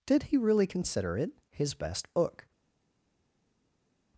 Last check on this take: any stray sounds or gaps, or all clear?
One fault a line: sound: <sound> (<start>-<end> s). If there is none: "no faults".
no faults